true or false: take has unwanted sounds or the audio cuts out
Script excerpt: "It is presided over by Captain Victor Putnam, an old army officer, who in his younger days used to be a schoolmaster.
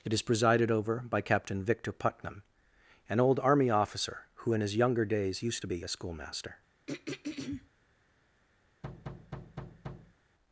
true